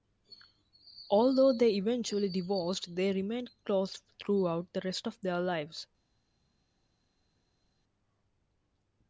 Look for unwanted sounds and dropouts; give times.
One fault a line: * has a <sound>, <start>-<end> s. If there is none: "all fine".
all fine